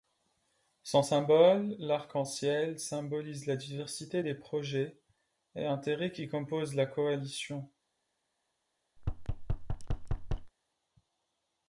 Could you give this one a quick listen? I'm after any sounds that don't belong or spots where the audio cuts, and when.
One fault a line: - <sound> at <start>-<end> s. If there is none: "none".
- thud at 9.0-10.5 s